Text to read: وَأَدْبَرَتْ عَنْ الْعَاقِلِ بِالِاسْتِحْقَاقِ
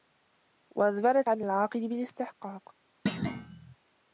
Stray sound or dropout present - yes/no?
yes